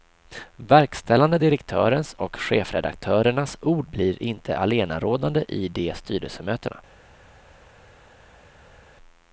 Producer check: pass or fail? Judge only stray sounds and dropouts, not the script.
pass